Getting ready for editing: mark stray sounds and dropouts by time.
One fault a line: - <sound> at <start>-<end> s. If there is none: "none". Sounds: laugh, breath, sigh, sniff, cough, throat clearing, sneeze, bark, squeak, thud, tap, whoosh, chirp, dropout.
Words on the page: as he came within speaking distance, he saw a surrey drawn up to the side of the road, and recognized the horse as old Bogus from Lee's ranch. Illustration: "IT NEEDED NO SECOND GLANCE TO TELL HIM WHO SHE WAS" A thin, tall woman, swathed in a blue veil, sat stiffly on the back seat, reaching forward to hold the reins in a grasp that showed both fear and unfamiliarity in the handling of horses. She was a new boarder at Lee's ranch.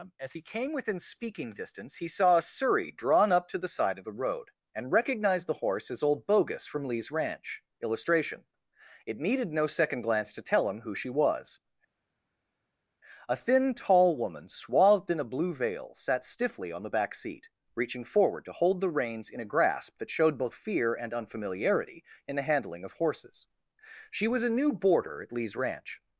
none